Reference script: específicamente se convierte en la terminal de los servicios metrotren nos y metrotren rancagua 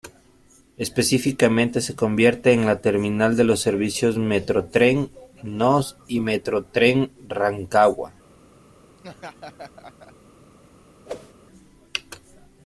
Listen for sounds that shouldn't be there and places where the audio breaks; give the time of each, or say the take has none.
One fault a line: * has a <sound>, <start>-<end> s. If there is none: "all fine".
* has a laugh, 9.0-10.1 s
* has a whoosh, 11.1-11.3 s